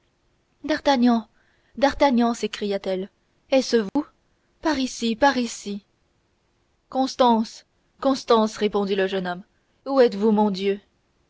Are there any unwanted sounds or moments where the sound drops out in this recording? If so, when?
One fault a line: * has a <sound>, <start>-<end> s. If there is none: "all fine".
* has a dropout, 3.9-4.0 s